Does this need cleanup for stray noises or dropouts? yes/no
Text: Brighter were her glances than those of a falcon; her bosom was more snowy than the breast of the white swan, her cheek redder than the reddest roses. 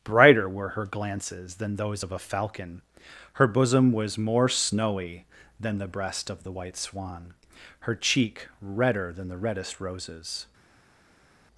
no